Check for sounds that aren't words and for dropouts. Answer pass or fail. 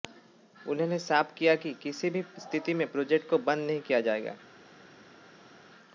pass